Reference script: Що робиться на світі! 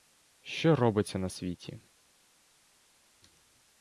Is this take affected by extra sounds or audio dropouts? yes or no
no